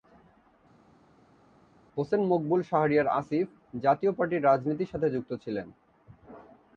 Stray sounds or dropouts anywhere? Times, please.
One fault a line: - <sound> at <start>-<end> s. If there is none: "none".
none